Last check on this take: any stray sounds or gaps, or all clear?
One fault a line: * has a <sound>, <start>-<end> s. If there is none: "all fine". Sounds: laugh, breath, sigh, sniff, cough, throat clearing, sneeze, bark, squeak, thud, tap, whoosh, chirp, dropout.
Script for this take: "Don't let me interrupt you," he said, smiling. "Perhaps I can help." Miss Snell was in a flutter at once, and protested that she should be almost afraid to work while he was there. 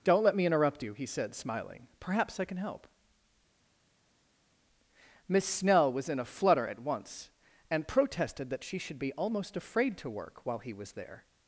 all fine